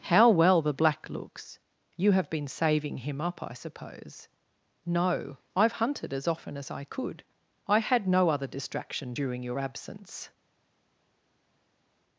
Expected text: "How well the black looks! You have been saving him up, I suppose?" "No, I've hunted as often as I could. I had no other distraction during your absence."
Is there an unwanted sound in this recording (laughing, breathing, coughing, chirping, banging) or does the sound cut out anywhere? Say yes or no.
no